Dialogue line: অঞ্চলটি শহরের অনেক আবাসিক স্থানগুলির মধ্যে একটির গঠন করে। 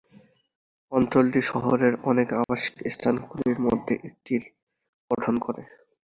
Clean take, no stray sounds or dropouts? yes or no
no